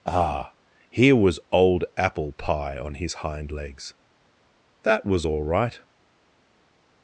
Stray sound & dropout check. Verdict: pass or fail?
pass